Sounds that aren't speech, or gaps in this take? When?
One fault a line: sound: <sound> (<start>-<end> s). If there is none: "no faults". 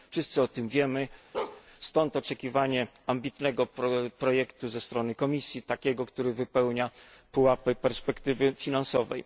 sound: bark (1.3-1.6 s)